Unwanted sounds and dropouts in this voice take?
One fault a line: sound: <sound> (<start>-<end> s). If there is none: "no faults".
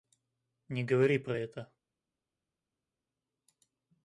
no faults